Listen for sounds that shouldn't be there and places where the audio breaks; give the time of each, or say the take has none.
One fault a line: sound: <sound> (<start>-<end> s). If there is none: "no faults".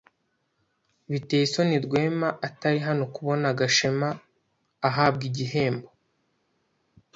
no faults